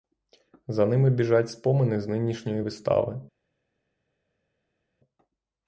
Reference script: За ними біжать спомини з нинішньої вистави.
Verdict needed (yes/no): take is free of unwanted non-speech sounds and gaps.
yes